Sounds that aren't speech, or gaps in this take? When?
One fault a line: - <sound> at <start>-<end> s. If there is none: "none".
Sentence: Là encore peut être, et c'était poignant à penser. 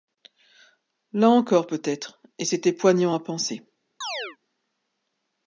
- chirp at 4.0-4.4 s